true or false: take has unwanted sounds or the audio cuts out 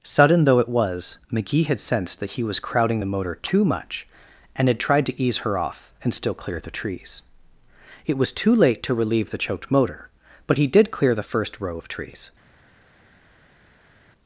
false